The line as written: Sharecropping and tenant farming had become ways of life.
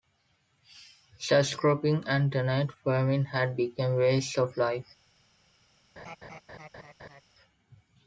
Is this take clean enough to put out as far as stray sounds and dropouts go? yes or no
no